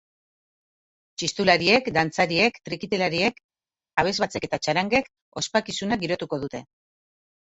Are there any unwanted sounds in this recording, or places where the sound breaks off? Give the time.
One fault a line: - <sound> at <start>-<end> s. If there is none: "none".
none